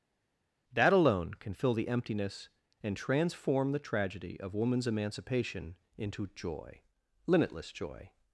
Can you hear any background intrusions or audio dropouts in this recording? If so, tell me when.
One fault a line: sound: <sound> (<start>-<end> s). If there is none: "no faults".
no faults